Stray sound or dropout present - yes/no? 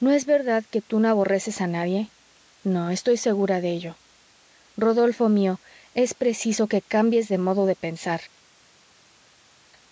no